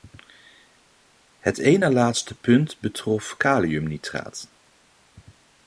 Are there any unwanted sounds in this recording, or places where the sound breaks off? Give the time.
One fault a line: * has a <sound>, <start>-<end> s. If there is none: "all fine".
all fine